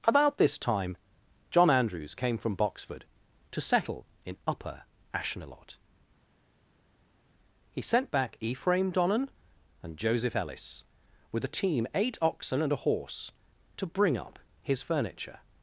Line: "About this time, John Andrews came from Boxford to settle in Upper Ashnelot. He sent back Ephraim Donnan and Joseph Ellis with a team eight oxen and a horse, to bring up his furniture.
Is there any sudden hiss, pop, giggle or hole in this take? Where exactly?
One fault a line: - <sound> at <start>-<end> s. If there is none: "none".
none